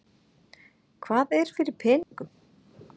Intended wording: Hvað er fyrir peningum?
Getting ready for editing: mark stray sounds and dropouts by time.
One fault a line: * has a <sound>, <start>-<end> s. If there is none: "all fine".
* has a dropout, 2.0-2.1 s